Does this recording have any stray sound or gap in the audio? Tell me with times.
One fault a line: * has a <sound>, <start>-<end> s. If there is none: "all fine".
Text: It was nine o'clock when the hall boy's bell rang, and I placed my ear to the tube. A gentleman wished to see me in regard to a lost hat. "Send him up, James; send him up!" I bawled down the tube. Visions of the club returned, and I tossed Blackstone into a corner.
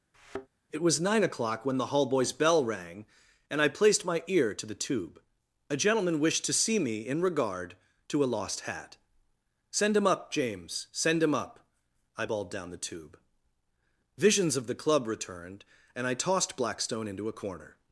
* has a thud, 0.1-0.5 s